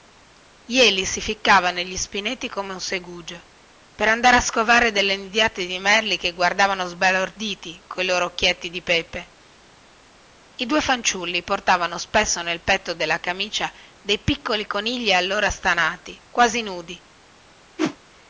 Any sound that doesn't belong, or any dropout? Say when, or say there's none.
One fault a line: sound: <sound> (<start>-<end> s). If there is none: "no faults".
sound: whoosh (17.8-18.0 s)